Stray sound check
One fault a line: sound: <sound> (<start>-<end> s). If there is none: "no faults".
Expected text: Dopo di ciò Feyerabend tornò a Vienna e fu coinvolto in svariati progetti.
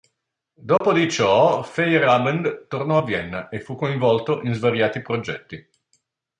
sound: dropout (0.8-0.8 s)